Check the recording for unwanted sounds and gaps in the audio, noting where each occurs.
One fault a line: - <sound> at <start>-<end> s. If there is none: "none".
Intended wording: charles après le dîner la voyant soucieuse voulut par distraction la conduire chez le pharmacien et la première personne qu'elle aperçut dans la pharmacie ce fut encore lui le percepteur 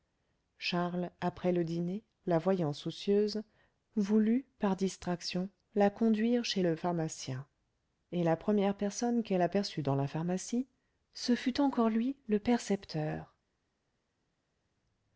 none